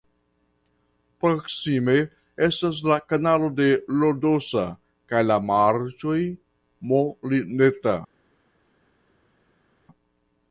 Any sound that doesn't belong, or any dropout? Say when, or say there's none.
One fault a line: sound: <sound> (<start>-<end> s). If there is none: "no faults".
no faults